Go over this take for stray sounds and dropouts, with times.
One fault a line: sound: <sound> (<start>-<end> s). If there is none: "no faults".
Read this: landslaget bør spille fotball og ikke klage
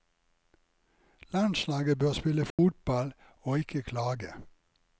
sound: dropout (2.5-2.6 s)